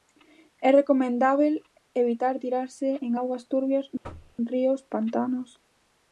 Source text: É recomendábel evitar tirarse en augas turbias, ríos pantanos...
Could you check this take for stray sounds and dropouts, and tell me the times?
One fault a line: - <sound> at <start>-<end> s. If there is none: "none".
- thud at 4.0-4.4 s